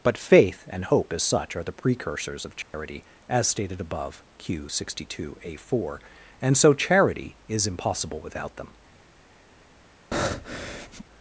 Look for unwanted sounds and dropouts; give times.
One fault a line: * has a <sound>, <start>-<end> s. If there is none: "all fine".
* has a dropout, 2.6-2.7 s
* has a breath, 10.1-11.0 s